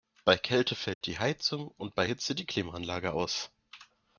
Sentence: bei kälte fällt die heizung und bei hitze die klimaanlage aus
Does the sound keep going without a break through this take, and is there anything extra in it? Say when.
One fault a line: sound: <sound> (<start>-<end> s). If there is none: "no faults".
sound: dropout (0.9-1.0 s)